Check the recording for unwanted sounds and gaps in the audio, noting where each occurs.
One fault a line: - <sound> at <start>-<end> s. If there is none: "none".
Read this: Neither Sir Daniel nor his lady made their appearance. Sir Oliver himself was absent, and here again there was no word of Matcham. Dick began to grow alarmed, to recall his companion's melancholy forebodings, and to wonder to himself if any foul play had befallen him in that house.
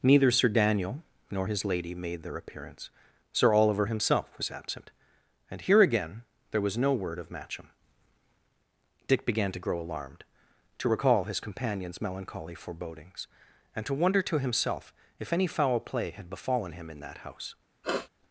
- sniff at 17.8-18.1 s